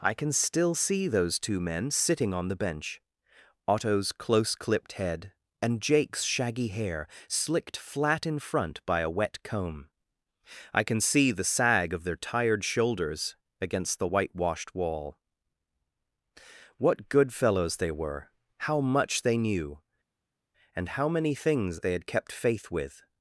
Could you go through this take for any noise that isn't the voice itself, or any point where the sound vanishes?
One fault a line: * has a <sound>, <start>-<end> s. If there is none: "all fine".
all fine